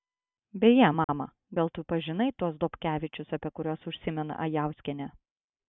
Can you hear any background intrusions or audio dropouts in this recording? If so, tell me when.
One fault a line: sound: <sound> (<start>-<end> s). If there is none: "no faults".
sound: dropout (1.0-1.1 s)